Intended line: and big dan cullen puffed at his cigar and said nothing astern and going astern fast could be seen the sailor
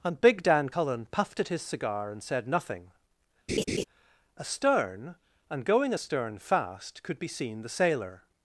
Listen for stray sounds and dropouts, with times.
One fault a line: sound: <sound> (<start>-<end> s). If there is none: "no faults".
sound: laugh (3.5-3.8 s)